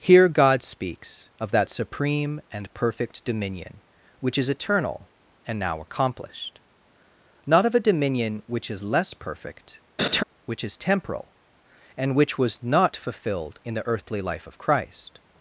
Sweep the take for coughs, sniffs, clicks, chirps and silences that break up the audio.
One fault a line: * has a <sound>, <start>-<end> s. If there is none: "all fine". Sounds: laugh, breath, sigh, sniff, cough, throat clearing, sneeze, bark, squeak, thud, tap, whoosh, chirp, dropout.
* has a laugh, 10.0-10.2 s